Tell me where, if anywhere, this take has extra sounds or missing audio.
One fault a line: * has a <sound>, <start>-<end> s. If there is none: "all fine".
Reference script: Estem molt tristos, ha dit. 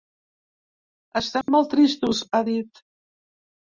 * has a dropout, 1.4-1.5 s